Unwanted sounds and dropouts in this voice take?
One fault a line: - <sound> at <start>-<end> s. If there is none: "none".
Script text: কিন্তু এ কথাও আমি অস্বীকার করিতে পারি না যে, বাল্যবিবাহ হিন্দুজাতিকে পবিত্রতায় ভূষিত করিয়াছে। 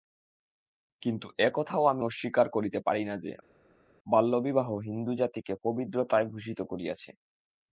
none